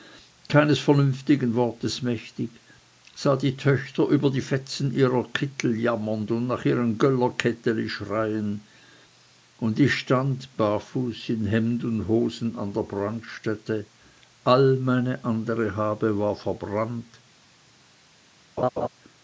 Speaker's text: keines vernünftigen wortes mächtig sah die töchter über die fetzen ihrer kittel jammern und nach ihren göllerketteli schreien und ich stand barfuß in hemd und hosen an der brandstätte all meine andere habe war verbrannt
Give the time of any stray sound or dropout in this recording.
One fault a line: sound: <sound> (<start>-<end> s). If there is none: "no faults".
sound: laugh (18.6-18.9 s)